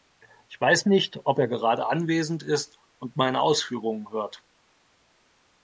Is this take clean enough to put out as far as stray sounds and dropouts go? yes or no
yes